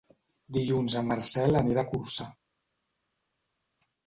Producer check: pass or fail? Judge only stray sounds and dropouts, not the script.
pass